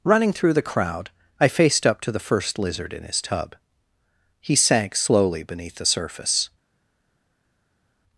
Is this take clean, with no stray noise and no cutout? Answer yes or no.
yes